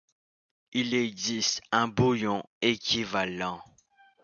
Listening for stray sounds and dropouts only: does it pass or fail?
pass